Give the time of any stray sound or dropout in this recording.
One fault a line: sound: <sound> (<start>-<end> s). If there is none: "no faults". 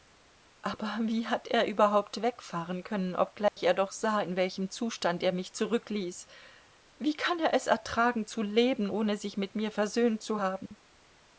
sound: dropout (3.5-3.6 s)
sound: dropout (10.7-10.7 s)